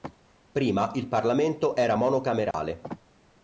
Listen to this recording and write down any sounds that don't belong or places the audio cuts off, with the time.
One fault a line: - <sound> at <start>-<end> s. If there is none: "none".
- dropout at 2.5-2.5 s